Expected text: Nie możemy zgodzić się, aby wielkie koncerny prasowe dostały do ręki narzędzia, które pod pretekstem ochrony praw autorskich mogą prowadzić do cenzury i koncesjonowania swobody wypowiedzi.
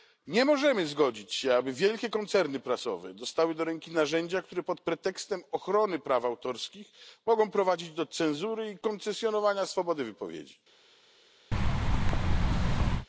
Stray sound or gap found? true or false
true